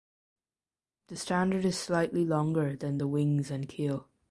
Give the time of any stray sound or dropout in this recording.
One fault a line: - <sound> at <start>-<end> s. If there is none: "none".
none